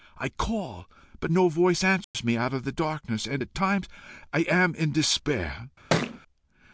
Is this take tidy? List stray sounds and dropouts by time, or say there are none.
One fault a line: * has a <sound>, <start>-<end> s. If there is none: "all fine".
* has a dropout, 2.0-2.1 s
* has a thud, 5.9-6.2 s